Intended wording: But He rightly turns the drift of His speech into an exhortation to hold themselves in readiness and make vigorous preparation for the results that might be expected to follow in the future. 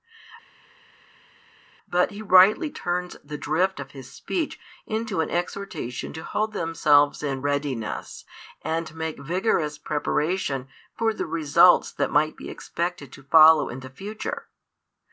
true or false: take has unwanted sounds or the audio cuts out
false